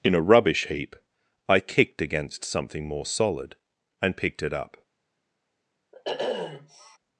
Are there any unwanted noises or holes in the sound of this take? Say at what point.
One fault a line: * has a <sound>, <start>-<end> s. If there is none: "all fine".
* has a sniff, 5.9-7.0 s